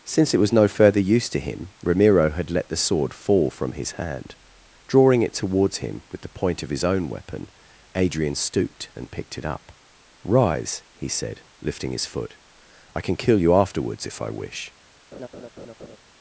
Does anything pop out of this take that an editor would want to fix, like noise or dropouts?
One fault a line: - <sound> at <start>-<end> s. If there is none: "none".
- laugh at 15.1-16.0 s